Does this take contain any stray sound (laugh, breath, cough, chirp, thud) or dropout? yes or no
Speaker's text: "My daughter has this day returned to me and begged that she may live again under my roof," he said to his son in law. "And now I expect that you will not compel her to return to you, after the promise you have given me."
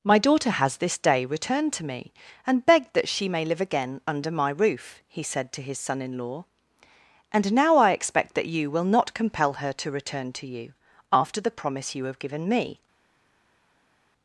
no